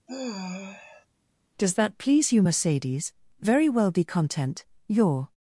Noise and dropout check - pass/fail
fail